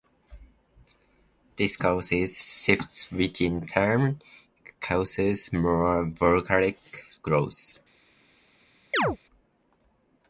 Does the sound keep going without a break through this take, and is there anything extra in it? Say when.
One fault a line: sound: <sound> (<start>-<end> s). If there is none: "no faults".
sound: chirp (8.9-9.2 s)